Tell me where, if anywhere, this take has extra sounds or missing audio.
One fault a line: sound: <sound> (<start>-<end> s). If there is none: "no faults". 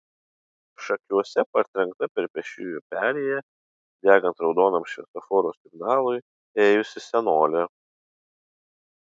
no faults